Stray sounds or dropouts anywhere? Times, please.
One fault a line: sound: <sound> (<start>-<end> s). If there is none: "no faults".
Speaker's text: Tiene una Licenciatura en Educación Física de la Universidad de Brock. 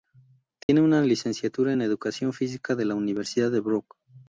sound: dropout (0.6-0.7 s)